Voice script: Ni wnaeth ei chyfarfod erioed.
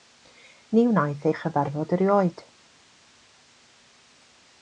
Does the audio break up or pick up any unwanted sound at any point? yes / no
no